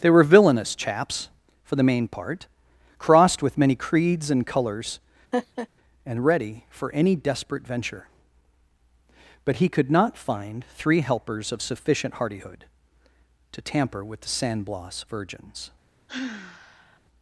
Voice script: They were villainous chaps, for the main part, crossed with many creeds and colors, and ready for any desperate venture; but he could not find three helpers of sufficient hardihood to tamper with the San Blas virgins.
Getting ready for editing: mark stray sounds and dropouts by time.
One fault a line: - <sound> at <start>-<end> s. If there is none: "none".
- laugh at 5.3-5.7 s
- sigh at 16.1-17.0 s